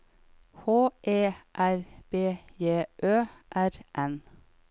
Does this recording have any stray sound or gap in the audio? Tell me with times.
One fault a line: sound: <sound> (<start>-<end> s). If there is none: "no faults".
no faults